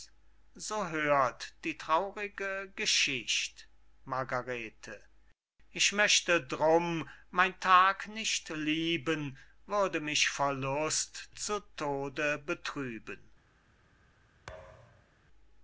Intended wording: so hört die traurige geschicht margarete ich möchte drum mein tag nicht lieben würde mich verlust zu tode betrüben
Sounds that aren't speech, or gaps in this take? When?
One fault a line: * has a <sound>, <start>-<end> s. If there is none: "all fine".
* has a thud, 14.5-15.2 s